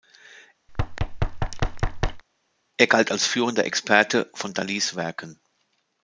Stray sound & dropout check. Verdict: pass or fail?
fail